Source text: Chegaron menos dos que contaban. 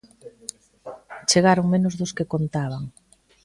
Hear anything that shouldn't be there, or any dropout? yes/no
no